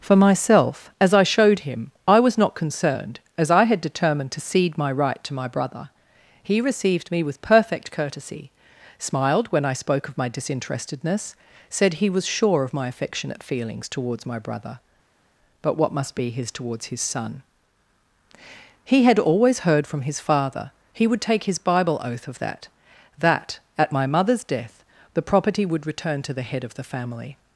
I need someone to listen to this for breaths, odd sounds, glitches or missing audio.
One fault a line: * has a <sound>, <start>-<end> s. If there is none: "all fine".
all fine